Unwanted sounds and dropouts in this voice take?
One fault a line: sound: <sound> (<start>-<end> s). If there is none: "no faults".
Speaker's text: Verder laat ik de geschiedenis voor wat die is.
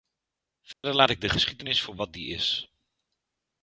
sound: dropout (0.7-0.8 s)